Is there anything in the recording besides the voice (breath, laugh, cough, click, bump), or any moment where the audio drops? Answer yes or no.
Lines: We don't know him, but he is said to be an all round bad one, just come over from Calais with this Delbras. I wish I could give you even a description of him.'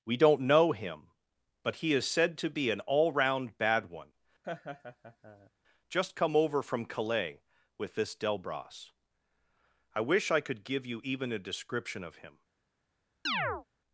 yes